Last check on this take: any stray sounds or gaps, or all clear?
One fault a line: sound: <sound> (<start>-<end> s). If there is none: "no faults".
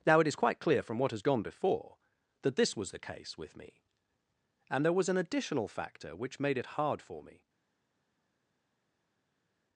no faults